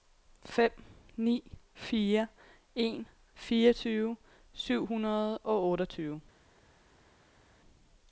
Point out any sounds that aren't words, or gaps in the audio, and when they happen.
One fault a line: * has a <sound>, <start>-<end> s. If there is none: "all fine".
all fine